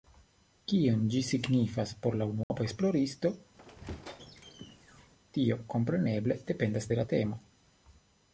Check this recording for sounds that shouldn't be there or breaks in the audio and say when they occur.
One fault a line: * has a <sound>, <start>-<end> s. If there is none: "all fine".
* has a dropout, 2.4-2.5 s
* has a squeak, 3.6-5.1 s